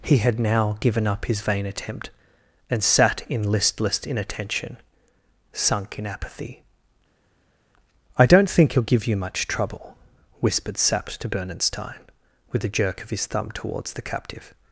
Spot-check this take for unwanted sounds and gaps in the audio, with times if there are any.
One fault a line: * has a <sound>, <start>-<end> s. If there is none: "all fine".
all fine